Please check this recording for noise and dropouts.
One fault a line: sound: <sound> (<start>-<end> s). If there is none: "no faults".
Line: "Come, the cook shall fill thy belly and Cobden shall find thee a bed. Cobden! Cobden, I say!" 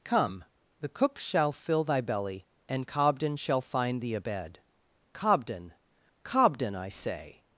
no faults